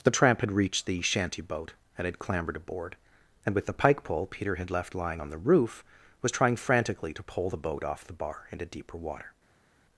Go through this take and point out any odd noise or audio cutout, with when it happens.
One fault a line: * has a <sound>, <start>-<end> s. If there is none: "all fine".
all fine